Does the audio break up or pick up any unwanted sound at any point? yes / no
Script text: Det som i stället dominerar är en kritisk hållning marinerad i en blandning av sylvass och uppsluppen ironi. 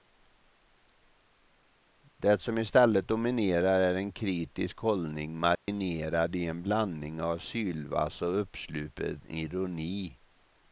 yes